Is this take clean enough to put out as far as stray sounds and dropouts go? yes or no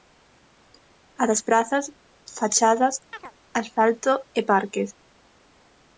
no